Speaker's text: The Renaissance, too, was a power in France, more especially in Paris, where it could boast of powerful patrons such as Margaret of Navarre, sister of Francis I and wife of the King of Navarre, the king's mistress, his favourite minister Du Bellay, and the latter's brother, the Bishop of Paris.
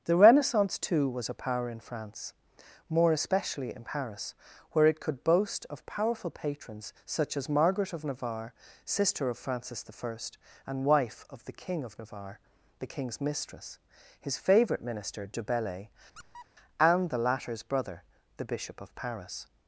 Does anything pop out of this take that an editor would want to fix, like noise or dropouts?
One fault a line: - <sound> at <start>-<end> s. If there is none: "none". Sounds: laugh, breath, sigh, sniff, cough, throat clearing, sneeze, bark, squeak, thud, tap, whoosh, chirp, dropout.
- squeak at 16.1-16.5 s